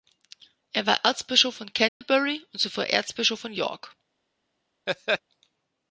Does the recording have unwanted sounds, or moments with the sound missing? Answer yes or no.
yes